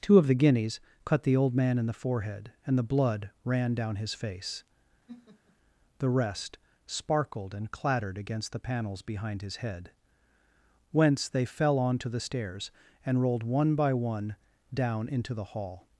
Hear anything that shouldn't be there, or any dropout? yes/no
yes